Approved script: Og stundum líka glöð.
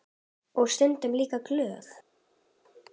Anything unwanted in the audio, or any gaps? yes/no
no